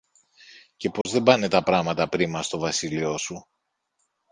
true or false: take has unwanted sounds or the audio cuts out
true